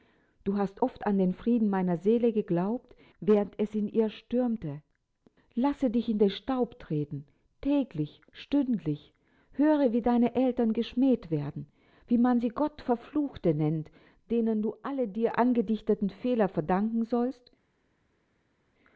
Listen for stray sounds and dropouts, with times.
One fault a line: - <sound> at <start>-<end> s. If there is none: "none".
none